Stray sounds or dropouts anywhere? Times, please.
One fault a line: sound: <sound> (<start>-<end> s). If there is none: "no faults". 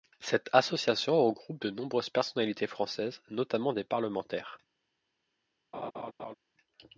sound: laugh (5.7-6.3 s)